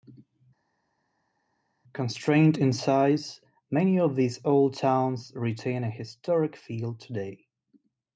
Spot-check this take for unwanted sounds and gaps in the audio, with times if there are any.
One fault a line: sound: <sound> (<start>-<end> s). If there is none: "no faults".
no faults